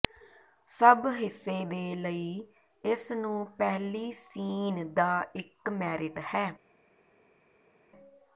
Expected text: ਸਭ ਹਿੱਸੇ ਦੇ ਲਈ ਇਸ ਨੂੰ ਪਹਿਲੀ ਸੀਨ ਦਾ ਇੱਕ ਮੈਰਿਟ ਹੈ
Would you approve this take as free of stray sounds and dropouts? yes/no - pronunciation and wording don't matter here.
yes